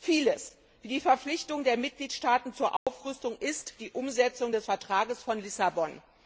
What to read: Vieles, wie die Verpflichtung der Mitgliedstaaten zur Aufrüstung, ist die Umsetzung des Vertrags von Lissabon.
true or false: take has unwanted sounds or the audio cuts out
true